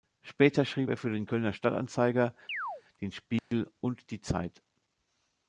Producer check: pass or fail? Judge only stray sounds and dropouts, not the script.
fail